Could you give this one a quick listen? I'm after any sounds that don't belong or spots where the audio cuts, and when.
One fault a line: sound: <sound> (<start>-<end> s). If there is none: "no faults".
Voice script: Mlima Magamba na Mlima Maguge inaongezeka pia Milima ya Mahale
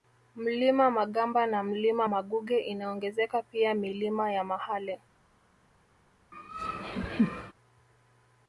sound: laugh (6.3-7.5 s)